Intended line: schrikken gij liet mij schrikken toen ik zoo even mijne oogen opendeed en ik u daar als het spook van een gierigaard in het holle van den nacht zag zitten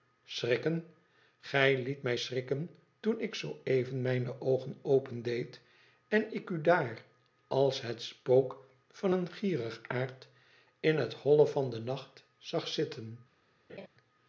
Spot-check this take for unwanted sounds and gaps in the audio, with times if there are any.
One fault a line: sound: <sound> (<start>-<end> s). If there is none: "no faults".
sound: laugh (13.7-13.9 s)